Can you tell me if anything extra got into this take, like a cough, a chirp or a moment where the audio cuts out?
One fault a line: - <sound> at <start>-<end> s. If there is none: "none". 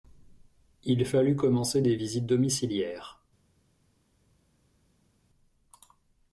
none